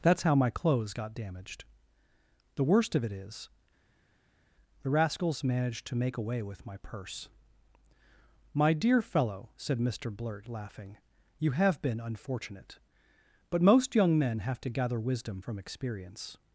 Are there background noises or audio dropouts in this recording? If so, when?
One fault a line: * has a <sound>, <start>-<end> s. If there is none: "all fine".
all fine